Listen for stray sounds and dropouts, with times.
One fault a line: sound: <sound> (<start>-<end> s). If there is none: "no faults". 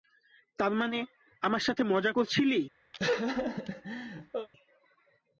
sound: laugh (2.9-4.5 s)